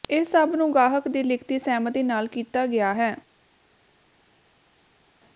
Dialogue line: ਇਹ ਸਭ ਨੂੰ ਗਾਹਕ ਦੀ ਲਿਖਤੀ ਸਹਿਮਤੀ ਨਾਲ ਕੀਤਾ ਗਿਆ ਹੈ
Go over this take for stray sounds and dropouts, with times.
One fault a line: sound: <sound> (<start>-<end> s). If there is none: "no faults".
no faults